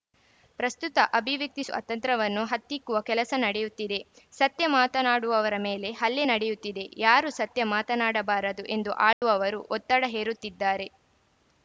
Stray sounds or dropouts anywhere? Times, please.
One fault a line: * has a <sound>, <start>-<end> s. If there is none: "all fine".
* has a dropout, 9.1-9.2 s